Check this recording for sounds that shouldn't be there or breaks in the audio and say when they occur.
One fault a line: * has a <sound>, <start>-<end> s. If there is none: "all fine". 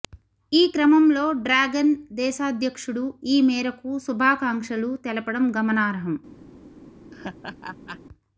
* has a laugh, 7.1-8.0 s